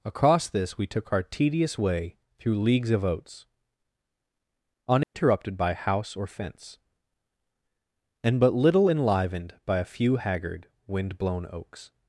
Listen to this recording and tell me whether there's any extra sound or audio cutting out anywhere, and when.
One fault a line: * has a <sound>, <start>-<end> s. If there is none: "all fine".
* has a dropout, 5.0-5.1 s